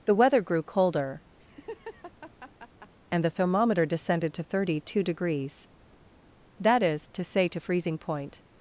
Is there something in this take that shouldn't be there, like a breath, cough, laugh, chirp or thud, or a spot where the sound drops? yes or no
yes